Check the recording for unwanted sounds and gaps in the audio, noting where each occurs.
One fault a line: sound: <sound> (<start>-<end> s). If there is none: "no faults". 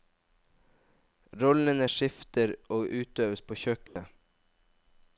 sound: dropout (3.9-4.0 s)